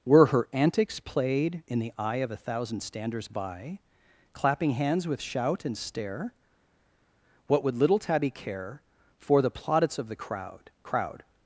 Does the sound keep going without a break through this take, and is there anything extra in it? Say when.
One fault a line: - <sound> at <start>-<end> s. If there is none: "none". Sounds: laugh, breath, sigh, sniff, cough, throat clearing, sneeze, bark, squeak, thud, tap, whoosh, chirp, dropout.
none